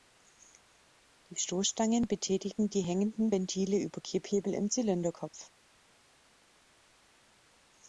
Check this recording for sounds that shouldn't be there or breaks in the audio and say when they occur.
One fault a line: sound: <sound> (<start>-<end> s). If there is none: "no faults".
no faults